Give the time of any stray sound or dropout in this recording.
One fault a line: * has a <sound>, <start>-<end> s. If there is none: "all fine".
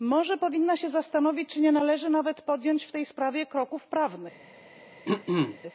* has a throat clearing, 5.0-5.6 s